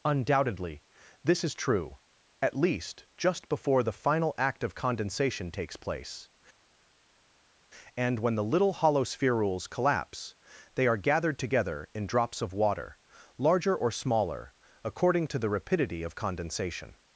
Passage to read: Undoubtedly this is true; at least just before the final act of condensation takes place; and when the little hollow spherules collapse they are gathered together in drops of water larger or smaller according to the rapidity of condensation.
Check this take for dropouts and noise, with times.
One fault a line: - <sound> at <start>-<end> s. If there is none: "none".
none